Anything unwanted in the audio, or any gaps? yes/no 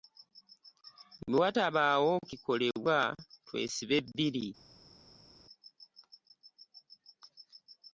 no